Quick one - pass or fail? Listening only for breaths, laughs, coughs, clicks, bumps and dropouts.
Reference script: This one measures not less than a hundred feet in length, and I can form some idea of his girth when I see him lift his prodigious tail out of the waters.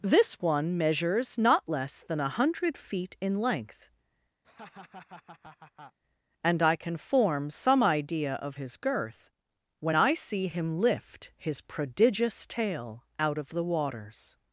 fail